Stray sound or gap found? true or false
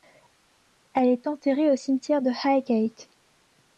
false